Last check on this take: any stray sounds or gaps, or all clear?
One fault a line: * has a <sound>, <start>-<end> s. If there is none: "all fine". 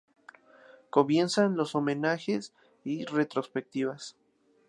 all fine